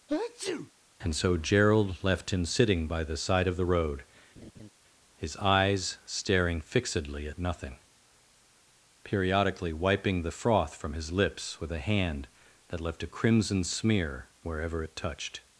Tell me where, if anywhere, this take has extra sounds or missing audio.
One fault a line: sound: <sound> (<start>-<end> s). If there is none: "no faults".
sound: sneeze (0.1-0.7 s)
sound: laugh (4.4-4.7 s)